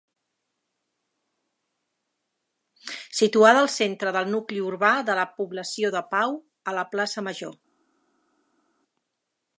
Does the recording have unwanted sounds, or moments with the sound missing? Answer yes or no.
no